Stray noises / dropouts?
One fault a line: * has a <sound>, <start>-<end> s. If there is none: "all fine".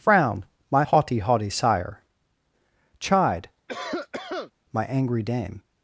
* has a cough, 3.7-4.5 s